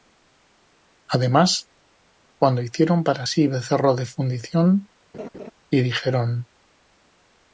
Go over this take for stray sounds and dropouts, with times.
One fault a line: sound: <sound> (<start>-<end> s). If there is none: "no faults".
sound: laugh (5.1-5.5 s)